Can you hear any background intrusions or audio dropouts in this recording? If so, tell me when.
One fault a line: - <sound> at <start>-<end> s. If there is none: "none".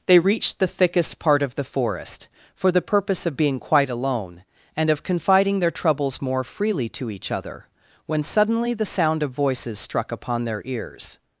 none